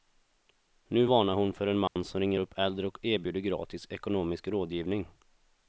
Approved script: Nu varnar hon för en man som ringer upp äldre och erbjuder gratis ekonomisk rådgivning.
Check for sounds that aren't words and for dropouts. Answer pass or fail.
fail